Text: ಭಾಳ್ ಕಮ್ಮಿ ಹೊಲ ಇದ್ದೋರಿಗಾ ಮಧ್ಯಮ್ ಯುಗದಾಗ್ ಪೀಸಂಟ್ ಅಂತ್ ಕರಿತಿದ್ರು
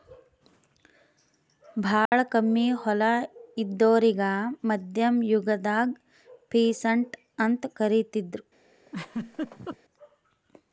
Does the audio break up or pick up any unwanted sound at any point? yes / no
yes